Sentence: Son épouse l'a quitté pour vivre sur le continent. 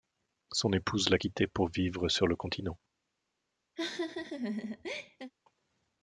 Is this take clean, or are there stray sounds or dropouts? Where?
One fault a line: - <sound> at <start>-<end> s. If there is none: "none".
- laugh at 3.8-5.3 s